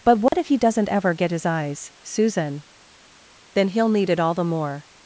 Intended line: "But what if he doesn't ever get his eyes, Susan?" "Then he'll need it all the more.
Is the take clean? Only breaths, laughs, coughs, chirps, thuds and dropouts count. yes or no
no